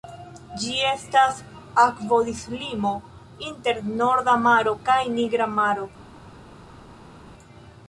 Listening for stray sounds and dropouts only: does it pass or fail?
pass